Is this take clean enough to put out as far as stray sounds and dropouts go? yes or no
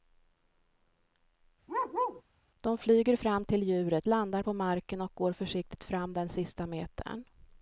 no